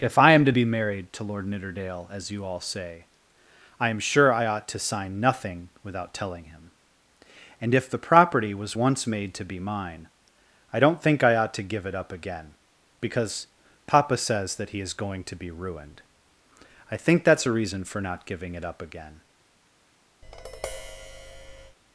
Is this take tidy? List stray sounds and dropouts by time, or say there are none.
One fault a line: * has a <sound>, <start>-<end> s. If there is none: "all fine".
* has a tap, 20.2-21.8 s